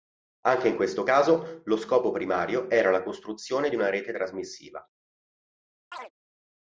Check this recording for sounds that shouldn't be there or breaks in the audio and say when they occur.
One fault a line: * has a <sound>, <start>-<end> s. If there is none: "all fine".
* has a chirp, 5.9-6.1 s